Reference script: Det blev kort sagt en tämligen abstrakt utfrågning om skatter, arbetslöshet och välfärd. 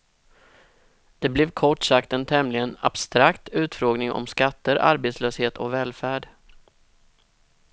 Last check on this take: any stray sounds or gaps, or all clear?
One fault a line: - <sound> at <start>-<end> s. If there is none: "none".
none